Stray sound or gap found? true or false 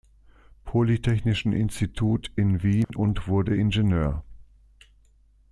true